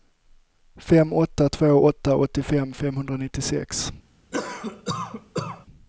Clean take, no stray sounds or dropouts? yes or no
no